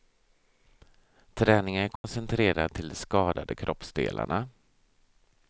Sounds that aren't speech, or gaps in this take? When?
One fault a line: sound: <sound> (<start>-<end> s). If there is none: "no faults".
sound: dropout (2.0-2.0 s)